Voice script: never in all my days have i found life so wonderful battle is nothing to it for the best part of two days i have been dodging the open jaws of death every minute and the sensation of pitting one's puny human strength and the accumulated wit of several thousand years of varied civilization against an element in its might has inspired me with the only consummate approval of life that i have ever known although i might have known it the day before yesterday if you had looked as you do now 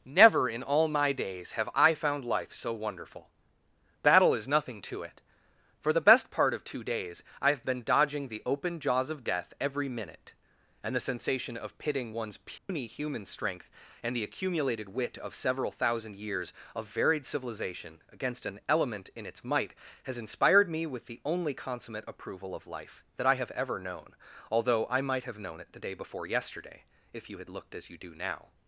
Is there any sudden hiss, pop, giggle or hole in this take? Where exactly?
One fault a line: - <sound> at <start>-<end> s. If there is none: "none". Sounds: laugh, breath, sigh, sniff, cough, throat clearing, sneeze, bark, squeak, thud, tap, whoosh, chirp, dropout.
- dropout at 12.6-12.7 s